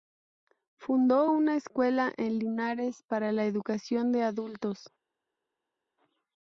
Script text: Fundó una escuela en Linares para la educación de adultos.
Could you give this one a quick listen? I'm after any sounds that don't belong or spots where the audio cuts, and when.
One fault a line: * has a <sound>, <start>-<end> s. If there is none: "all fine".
all fine